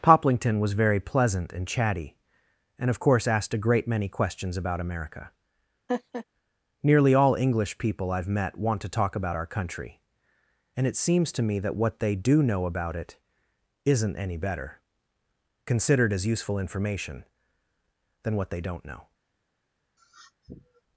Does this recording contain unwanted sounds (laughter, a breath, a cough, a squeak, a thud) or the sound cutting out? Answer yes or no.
yes